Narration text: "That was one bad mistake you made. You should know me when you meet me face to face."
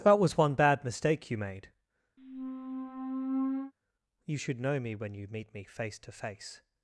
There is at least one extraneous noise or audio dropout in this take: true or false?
true